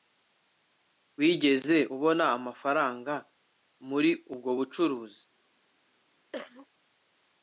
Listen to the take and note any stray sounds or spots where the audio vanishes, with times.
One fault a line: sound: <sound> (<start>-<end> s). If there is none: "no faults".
sound: cough (6.3-6.7 s)